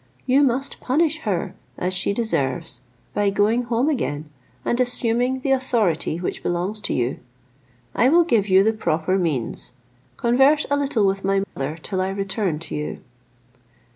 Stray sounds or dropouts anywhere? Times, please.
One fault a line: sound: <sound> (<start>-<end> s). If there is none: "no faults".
sound: dropout (11.4-11.6 s)